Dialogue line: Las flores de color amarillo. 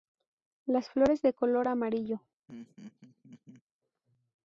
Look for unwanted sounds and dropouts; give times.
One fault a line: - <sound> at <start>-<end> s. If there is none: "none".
- laugh at 2.5-3.6 s